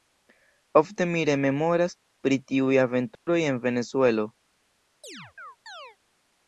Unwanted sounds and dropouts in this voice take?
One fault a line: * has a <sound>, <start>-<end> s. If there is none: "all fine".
* has a dropout, 3.2-3.3 s
* has a chirp, 5.0-6.0 s